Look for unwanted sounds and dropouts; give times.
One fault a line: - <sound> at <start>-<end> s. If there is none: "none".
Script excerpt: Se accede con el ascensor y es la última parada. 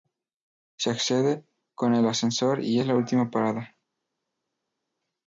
none